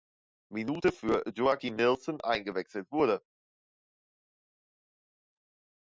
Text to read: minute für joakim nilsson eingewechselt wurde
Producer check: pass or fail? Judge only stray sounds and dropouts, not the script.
pass